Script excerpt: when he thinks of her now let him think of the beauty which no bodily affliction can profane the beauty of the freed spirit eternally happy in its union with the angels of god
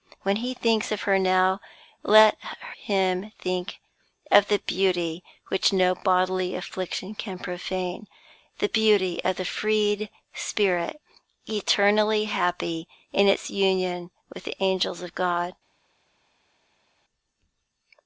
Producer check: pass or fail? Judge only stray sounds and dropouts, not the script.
pass